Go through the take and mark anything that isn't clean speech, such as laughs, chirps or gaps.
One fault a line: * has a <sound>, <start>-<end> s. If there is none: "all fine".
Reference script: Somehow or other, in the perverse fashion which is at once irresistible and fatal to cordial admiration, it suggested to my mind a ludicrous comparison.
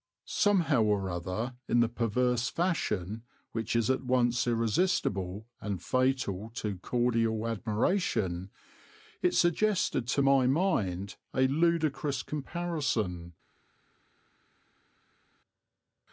all fine